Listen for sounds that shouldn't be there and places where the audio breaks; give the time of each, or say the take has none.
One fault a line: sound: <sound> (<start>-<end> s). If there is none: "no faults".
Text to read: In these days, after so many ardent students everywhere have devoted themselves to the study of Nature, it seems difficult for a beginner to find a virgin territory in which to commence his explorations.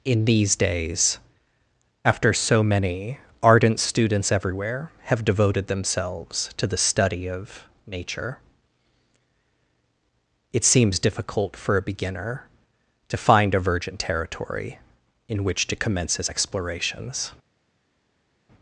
no faults